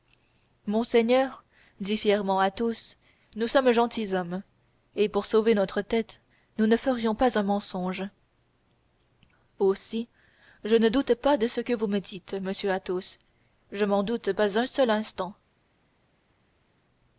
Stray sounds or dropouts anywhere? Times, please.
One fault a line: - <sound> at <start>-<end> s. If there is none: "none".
none